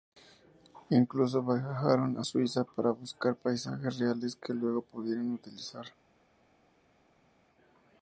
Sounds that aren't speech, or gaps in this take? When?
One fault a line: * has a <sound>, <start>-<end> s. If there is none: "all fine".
all fine